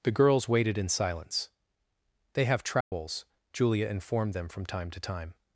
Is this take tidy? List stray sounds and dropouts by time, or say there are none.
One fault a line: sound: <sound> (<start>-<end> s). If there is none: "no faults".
sound: dropout (2.8-2.9 s)